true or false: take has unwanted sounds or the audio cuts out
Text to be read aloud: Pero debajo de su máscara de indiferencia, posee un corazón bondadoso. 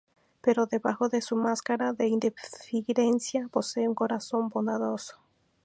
false